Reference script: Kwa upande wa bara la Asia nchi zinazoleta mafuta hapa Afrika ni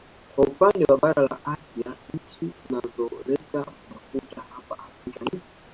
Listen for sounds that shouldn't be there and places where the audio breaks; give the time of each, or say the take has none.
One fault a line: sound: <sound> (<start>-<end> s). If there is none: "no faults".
sound: dropout (2.2-2.2 s)